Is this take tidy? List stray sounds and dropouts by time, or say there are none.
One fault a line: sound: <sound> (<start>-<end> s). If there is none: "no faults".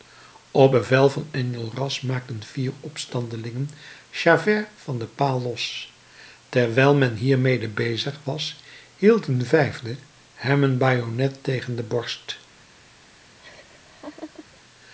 sound: laugh (13.4-14.6 s)